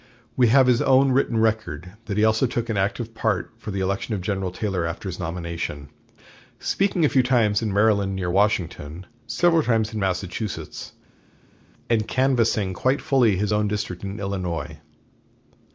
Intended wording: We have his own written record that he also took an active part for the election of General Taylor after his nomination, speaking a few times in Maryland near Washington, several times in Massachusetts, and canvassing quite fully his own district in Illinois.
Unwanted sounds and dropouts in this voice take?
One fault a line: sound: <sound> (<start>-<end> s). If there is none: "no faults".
no faults